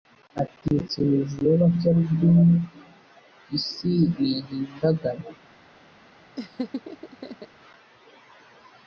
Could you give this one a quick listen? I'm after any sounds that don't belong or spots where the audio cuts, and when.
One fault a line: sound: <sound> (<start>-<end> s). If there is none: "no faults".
sound: laugh (6.4-7.5 s)